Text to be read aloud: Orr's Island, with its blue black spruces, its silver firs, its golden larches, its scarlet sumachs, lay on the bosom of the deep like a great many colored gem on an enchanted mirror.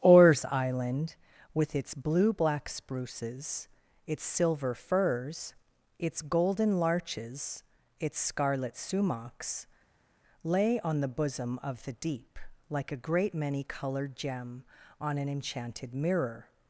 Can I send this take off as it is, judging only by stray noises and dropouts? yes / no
yes